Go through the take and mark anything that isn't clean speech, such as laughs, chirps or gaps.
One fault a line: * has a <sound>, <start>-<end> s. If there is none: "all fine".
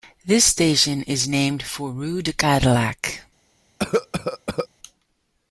* has a cough, 3.8-4.7 s